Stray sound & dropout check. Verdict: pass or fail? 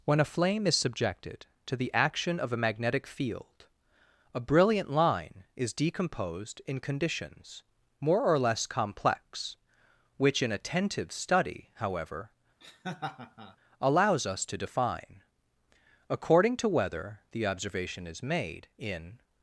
fail